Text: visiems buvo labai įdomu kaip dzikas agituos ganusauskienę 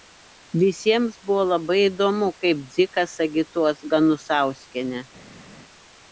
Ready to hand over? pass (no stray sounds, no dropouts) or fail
pass